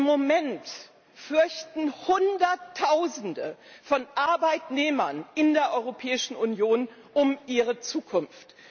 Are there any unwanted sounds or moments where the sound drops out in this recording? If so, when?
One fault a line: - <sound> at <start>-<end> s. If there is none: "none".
none